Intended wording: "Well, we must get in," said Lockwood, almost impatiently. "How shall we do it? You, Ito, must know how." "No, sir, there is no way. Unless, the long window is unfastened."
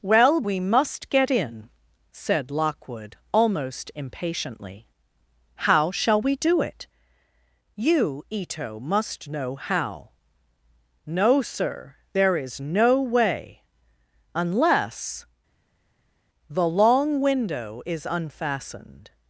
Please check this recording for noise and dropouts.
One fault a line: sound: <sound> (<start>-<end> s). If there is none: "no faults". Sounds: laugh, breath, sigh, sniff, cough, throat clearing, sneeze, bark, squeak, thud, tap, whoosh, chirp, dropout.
no faults